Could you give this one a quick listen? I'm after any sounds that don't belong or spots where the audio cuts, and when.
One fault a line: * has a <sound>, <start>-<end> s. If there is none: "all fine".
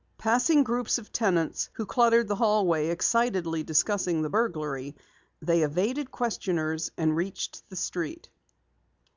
all fine